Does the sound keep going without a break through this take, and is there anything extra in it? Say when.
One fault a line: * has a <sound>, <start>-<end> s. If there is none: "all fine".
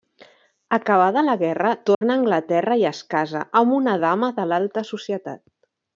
* has a dropout, 1.9-2.0 s